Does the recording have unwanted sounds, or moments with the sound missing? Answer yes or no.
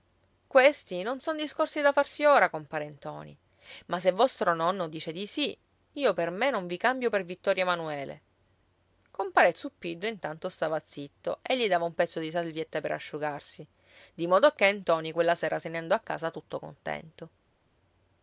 no